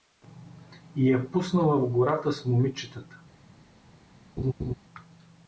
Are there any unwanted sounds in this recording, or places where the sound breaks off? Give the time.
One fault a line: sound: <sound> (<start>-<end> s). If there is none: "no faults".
sound: laugh (4.4-4.7 s)